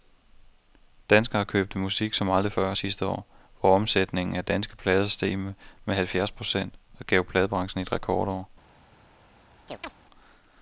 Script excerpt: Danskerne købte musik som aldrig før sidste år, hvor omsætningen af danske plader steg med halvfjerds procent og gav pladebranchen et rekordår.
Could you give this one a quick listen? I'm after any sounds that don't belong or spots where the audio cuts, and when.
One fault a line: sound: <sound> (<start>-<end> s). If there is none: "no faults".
sound: chirp (9.7-9.9 s)